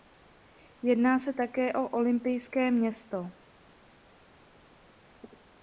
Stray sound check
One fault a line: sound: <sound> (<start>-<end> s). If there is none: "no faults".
no faults